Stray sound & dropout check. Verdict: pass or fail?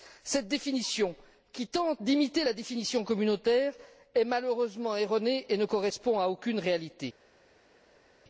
pass